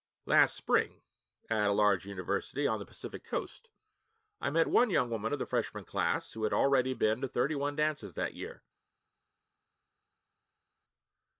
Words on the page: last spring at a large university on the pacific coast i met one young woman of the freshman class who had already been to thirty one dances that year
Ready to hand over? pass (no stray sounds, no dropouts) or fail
pass